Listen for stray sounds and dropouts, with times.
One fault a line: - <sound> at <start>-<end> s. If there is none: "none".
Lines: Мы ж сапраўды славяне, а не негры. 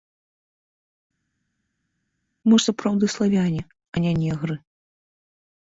none